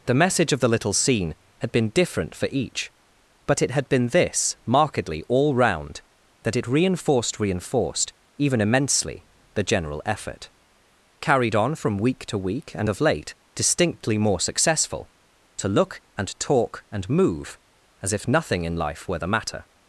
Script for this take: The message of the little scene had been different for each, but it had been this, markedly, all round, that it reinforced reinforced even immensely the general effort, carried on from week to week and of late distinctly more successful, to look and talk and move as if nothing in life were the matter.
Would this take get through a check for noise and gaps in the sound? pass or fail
pass